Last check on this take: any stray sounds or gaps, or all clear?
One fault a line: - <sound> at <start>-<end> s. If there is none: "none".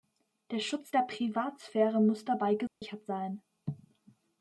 - dropout at 2.7-2.8 s